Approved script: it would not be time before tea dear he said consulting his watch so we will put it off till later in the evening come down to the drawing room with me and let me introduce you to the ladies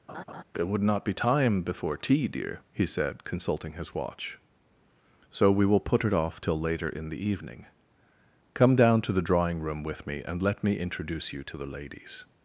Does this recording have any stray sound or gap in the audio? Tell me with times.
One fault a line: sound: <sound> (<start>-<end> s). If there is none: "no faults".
sound: laugh (0.1-0.4 s)